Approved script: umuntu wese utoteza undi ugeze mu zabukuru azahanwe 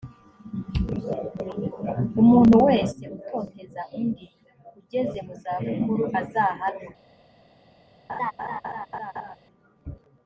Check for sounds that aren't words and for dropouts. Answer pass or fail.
fail